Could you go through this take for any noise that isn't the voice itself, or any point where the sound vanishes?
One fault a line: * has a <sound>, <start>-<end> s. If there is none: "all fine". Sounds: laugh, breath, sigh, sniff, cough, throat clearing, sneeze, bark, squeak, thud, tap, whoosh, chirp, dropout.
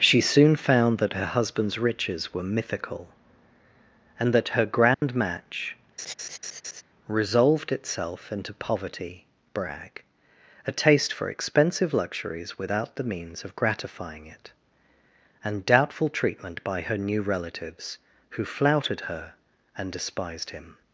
* has a dropout, 4.9-5.0 s
* has a laugh, 6.0-6.8 s